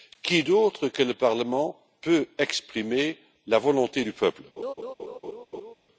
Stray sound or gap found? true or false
true